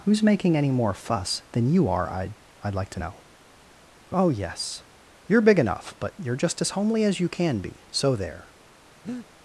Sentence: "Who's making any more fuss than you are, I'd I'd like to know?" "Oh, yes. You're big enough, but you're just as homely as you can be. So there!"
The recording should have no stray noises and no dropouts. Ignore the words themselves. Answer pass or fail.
fail